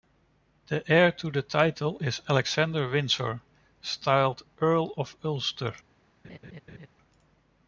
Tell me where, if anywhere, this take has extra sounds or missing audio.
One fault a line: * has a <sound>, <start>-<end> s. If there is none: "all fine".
* has a laugh, 6.2-6.9 s